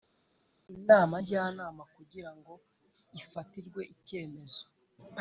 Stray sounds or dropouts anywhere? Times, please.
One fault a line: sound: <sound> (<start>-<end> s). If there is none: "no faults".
no faults